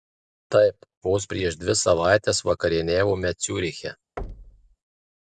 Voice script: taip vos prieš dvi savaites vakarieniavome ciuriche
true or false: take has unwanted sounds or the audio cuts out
true